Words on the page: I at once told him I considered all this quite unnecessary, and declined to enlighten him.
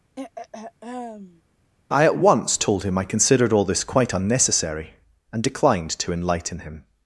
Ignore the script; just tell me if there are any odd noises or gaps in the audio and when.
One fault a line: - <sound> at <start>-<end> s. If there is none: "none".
- throat clearing at 0.2-1.4 s